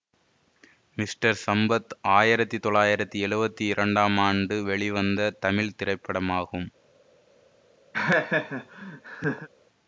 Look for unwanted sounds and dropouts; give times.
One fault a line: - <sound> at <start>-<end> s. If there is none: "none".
- laugh at 7.9-9.5 s